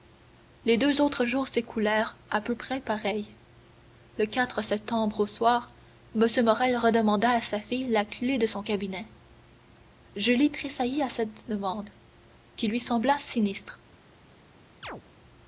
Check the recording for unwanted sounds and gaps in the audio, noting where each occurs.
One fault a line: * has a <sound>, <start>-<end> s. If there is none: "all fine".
* has a chirp, 14.8-15.0 s